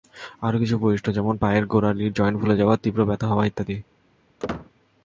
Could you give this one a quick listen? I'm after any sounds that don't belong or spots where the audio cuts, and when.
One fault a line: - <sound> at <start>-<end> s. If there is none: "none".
- squeak at 4.4-4.7 s